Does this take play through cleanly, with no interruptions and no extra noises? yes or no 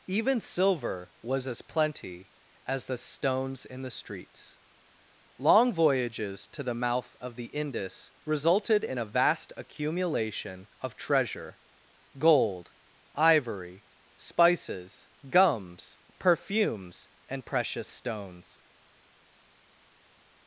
yes